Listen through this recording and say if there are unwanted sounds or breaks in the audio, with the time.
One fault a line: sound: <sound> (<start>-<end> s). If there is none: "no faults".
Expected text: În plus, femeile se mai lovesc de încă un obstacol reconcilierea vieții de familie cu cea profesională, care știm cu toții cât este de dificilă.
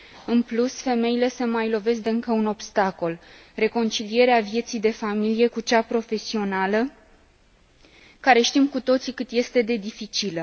no faults